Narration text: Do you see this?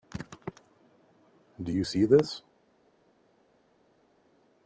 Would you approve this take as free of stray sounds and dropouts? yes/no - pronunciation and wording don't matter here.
yes